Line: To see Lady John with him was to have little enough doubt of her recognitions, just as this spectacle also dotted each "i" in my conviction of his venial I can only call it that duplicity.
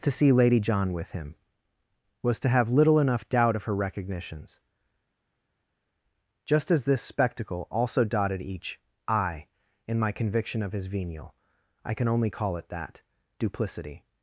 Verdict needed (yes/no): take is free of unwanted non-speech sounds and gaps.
yes